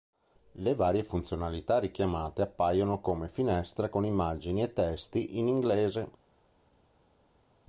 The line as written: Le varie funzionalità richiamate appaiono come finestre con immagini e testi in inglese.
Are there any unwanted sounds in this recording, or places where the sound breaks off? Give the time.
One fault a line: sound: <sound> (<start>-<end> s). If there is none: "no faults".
no faults